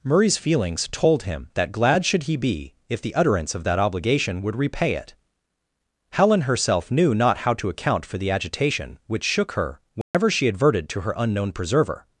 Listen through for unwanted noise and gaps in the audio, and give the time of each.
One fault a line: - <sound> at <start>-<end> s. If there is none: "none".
- dropout at 10.0-10.1 s